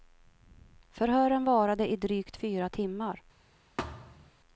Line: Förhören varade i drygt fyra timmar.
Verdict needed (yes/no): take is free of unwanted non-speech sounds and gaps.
no